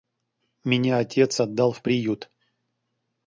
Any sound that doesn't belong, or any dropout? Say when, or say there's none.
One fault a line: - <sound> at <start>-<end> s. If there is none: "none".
none